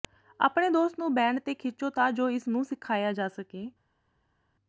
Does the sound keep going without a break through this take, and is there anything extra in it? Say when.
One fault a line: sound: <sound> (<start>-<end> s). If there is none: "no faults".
no faults